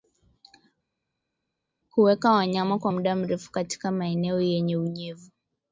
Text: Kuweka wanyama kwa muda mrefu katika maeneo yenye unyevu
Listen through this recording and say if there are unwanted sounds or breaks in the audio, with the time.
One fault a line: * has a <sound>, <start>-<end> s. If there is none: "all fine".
all fine